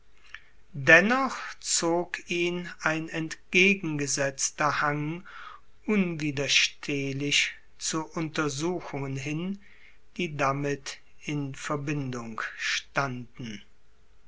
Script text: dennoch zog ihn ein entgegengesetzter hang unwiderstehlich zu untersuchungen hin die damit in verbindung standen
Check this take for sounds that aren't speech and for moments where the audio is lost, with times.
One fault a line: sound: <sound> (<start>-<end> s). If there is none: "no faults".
no faults